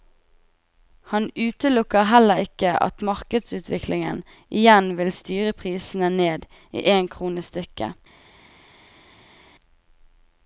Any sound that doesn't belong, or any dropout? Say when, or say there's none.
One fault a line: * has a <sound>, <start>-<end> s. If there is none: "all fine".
all fine